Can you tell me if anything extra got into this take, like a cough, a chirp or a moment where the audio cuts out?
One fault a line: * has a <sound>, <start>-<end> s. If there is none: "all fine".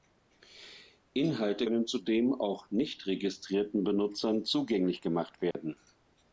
* has a dropout, 5.5-5.5 s